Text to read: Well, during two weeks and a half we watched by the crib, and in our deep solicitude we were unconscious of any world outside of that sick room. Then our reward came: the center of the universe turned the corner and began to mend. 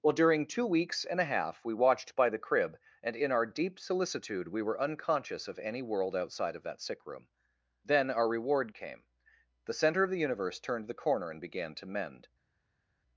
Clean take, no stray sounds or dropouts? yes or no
yes